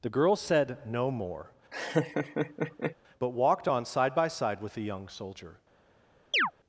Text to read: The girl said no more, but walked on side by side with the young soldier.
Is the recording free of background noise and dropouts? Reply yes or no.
no